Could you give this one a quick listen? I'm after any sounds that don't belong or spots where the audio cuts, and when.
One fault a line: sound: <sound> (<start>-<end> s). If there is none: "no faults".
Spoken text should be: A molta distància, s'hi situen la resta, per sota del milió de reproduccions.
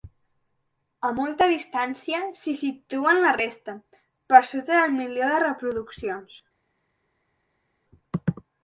no faults